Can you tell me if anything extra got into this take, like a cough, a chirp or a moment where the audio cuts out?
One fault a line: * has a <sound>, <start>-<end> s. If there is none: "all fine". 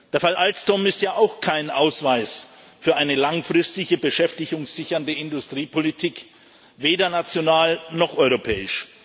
all fine